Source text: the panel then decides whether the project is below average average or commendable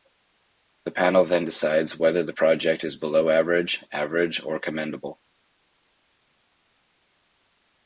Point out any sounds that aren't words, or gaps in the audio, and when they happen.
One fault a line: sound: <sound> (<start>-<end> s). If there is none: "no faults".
no faults